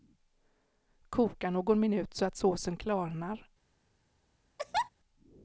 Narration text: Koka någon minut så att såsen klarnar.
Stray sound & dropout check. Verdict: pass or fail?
fail